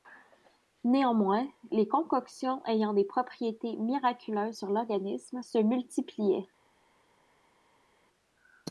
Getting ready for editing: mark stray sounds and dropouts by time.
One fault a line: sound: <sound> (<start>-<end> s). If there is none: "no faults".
no faults